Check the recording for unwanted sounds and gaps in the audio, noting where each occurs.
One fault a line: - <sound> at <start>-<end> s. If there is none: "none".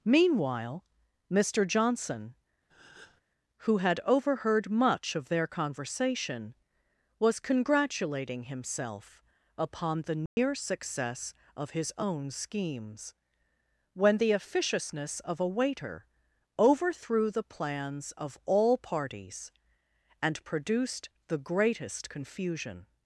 - breath at 2.7-3.2 s
- dropout at 10.3-10.4 s